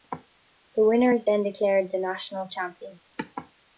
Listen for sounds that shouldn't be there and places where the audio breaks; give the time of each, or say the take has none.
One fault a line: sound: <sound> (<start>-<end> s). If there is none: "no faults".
no faults